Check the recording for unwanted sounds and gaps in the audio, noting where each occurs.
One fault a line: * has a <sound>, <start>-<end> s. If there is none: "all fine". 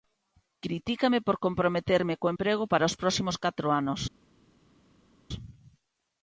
all fine